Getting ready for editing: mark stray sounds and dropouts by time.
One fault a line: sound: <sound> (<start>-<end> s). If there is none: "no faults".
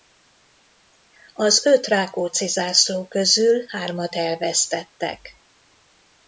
no faults